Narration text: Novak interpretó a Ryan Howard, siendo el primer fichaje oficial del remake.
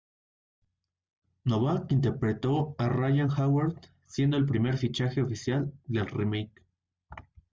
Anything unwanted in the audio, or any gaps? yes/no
no